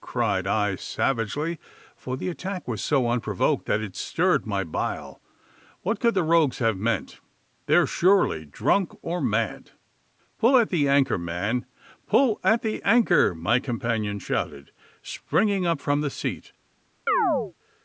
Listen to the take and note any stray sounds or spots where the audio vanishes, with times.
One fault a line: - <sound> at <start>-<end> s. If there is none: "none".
- chirp at 17.1-17.5 s